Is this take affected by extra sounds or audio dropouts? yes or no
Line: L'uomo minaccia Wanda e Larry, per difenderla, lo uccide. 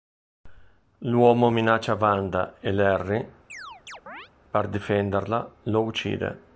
yes